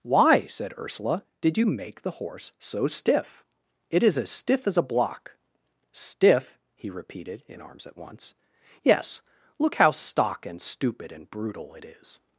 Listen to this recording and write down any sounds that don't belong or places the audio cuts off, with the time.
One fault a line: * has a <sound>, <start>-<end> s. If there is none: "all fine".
all fine